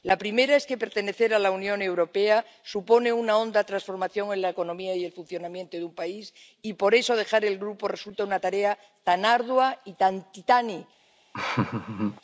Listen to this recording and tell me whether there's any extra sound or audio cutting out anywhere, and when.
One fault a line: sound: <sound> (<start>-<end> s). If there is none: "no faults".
sound: laugh (11.3-12.2 s)